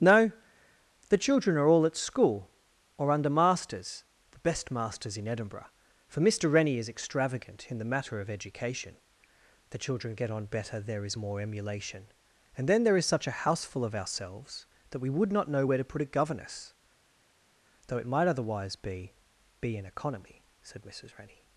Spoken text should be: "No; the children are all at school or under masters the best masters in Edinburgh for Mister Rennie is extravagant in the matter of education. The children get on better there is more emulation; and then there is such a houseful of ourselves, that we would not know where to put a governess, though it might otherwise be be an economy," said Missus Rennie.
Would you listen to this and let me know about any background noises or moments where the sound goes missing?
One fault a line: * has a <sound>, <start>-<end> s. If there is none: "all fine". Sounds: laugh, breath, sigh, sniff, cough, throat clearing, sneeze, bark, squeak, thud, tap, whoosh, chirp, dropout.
all fine